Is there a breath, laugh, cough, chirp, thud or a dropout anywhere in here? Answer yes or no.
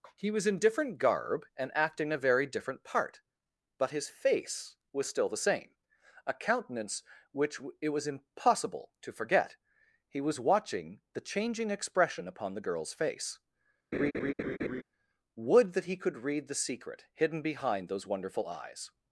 yes